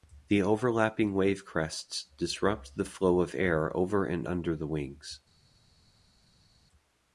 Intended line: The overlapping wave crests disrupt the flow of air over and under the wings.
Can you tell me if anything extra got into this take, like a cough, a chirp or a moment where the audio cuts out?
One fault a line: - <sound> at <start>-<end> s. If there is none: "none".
none